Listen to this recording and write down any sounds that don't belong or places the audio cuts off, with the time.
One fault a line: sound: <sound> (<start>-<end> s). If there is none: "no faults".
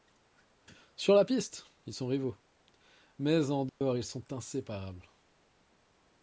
sound: dropout (3.7-3.8 s)